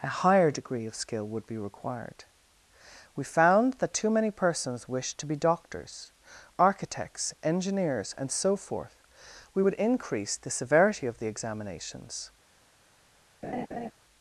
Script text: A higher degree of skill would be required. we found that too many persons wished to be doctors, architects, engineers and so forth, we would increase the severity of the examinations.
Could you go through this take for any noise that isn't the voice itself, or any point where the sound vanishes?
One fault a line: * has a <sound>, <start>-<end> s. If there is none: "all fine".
* has a laugh, 13.4-13.9 s